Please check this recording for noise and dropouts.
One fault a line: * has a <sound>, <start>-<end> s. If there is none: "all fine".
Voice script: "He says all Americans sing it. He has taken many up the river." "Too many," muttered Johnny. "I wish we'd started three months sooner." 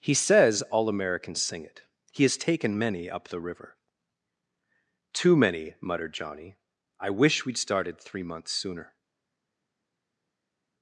all fine